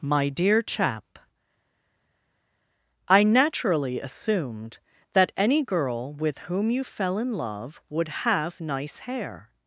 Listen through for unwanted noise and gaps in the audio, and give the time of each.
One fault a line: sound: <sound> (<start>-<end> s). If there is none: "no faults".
no faults